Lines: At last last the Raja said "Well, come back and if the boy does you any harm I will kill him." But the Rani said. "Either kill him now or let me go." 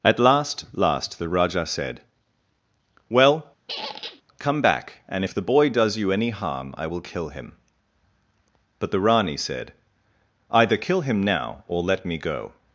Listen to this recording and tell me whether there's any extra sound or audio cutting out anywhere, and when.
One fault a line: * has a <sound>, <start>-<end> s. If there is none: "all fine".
* has a squeak, 3.7-4.2 s